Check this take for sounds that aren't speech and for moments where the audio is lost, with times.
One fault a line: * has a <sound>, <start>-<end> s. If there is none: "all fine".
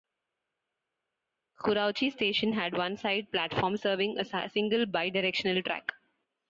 all fine